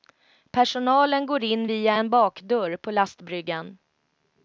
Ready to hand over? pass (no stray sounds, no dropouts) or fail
pass